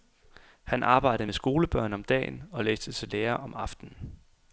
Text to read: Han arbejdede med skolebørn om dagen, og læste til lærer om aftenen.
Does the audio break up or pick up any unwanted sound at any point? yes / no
no